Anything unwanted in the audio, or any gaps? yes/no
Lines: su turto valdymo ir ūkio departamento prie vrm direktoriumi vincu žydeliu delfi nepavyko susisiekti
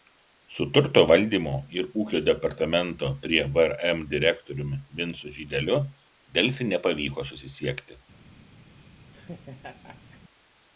yes